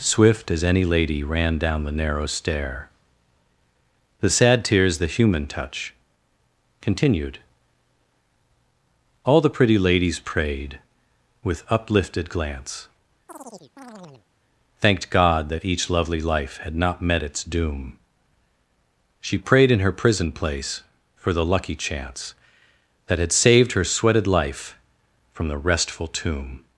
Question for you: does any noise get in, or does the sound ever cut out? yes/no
yes